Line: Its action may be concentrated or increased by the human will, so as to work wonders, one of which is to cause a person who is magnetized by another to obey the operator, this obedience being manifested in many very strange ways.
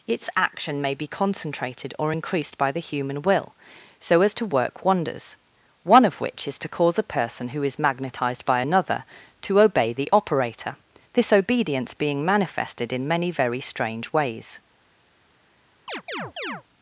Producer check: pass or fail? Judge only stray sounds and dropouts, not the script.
fail